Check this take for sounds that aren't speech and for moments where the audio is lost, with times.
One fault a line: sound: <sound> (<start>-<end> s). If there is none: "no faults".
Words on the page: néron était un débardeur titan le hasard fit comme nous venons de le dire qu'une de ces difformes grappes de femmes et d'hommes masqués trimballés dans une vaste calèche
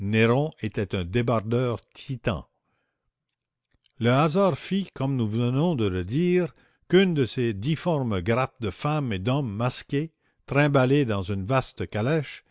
no faults